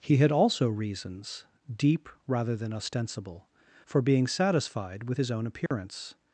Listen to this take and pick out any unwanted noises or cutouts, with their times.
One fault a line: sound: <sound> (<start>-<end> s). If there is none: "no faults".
sound: dropout (5.7-5.7 s)